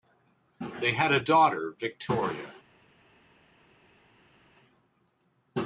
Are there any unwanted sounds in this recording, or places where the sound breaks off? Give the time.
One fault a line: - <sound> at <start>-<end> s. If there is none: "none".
none